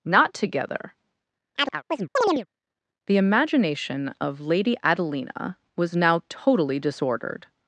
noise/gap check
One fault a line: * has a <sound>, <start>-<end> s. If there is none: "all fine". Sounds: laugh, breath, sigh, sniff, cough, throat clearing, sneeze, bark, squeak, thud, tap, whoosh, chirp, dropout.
* has a chirp, 1.6-2.5 s